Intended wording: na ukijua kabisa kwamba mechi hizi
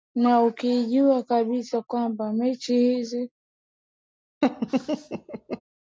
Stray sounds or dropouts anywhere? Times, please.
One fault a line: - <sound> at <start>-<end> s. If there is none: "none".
- laugh at 4.4-5.6 s